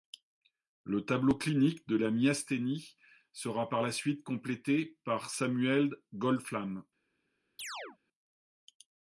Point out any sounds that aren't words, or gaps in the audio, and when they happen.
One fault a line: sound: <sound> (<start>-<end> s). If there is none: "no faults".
sound: chirp (7.6-8.0 s)